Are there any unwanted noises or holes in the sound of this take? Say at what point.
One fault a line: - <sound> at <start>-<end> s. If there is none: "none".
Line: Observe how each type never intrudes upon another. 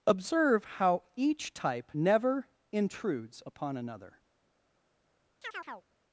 - chirp at 5.4-5.9 s